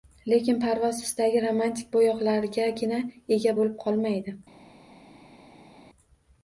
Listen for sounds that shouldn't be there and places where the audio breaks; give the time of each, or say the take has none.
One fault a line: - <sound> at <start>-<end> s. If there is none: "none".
none